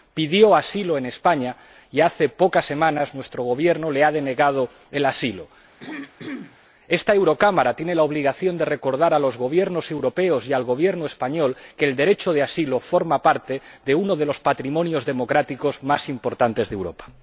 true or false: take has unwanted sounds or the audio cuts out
true